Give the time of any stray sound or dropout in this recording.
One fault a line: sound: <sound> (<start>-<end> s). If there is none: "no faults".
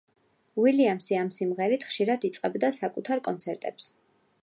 no faults